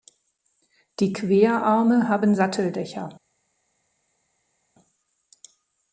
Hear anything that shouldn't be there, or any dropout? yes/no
no